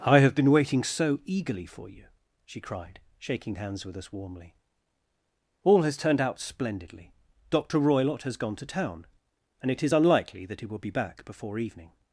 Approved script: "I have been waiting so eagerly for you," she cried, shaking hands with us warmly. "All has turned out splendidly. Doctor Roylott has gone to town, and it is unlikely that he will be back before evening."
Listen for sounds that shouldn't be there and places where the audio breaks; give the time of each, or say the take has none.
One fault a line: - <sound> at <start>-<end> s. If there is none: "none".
none